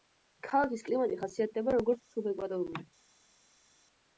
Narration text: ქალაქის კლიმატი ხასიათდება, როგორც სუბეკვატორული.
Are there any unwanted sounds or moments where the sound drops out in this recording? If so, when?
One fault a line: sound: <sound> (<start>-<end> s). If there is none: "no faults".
no faults